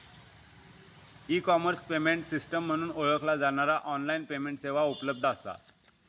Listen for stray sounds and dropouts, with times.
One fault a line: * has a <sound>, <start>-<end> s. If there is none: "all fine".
all fine